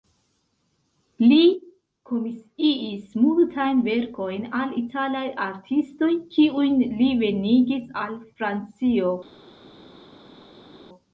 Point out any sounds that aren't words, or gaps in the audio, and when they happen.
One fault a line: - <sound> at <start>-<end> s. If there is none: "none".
none